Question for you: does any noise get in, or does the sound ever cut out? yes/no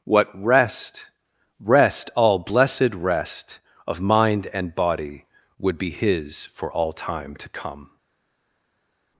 no